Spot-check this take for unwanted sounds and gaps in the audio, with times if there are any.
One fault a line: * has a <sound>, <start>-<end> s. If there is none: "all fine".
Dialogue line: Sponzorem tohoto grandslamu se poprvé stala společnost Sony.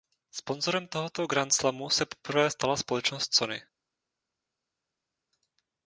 all fine